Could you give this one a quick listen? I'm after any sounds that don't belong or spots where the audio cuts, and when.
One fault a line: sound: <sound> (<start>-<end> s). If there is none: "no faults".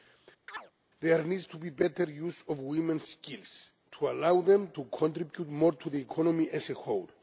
sound: chirp (0.5-0.7 s)